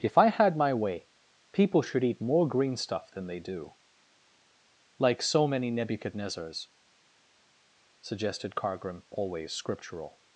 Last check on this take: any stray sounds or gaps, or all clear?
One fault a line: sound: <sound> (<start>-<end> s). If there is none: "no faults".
no faults